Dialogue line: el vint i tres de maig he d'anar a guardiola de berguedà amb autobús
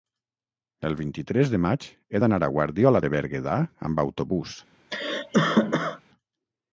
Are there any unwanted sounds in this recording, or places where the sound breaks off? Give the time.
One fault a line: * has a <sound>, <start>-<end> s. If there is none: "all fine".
* has a cough, 4.9-6.0 s